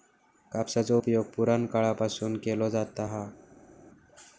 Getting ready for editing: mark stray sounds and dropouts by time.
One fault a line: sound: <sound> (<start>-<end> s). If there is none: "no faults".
no faults